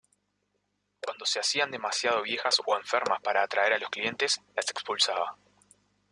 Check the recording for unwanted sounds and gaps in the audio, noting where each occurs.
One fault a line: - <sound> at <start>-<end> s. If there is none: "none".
none